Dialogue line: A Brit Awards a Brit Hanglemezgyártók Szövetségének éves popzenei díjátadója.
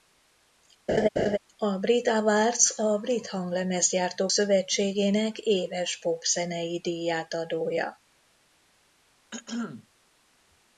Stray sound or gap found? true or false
true